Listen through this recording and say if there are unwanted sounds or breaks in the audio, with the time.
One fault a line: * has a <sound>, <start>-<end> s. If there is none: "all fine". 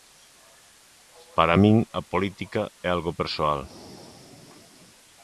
all fine